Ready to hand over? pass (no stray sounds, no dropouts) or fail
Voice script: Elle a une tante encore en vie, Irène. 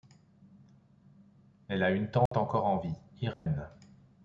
fail